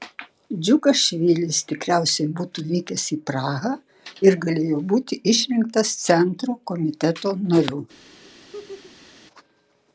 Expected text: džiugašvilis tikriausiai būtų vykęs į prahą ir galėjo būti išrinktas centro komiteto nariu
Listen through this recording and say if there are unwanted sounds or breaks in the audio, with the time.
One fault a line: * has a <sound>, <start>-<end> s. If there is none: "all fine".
* has a laugh, 8.2-9.1 s